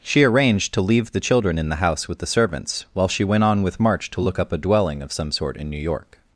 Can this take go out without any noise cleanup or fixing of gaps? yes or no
yes